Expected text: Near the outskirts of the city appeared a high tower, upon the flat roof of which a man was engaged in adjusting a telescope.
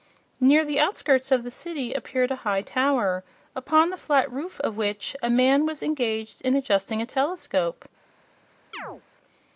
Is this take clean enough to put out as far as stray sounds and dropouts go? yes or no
no